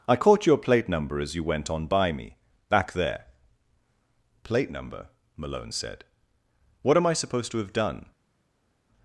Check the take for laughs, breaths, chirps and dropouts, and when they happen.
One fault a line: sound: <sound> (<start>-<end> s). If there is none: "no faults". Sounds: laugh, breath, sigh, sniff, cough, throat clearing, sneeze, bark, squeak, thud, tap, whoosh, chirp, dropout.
no faults